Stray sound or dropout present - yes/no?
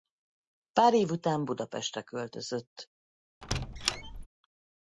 yes